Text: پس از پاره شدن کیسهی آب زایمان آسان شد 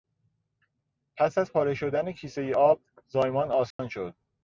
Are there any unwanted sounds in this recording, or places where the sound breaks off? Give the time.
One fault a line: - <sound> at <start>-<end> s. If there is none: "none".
- dropout at 3.7-3.8 s